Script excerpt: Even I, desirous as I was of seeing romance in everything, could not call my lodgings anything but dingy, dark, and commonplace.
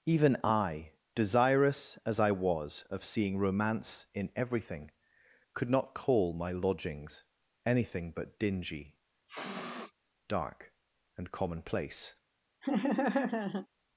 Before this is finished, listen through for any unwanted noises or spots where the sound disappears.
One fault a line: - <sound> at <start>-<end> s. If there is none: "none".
- sniff at 9.3-9.9 s
- laugh at 12.6-13.7 s